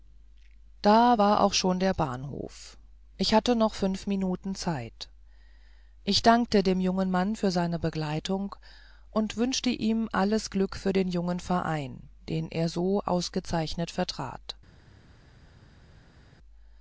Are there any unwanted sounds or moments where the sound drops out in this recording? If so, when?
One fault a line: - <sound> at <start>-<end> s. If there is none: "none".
none